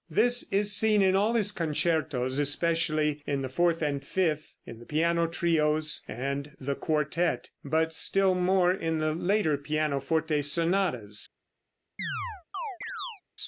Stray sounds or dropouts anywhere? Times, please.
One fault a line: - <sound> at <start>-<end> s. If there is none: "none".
- chirp at 12.0-13.2 s